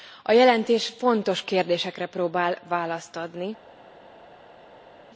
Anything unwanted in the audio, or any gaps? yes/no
no